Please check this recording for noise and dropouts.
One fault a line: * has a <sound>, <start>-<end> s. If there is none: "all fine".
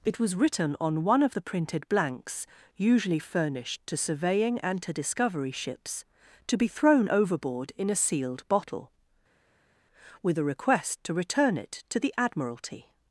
all fine